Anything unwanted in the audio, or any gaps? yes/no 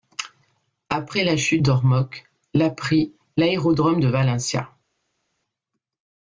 no